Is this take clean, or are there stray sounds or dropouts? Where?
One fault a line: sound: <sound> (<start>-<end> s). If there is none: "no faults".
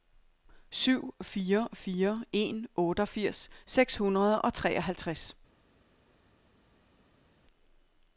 no faults